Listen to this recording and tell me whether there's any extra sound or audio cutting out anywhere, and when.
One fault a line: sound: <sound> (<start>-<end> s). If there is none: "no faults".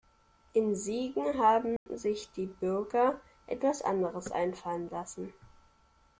sound: dropout (1.8-1.9 s)